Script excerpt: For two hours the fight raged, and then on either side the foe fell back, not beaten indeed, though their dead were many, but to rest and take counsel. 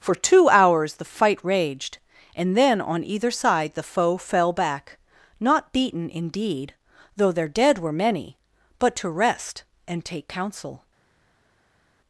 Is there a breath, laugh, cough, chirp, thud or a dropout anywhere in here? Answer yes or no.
no